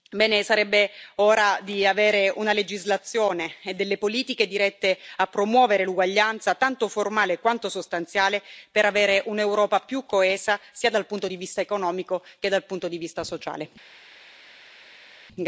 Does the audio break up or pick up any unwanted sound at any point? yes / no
no